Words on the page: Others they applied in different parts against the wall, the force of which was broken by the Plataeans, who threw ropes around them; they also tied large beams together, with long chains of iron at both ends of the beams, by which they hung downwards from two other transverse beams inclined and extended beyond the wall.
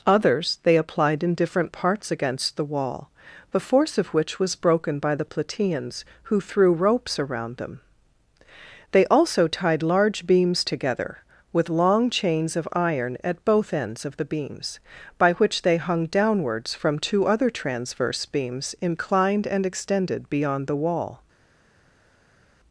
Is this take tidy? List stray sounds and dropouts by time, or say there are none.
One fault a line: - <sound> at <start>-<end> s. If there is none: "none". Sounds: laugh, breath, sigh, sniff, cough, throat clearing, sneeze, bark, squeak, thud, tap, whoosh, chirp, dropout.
none